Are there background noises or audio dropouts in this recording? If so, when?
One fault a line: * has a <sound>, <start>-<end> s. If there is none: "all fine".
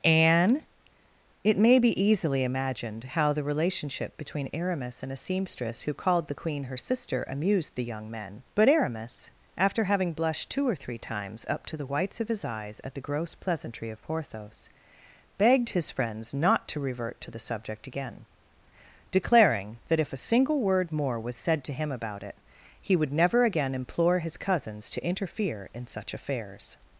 all fine